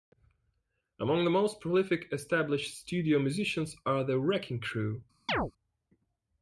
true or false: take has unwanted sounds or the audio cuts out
true